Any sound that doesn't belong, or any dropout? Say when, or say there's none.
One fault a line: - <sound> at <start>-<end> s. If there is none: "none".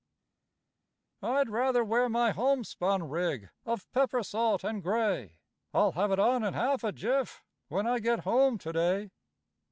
none